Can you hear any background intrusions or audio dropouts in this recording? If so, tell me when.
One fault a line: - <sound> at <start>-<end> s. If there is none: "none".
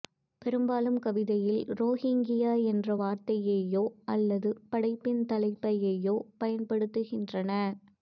none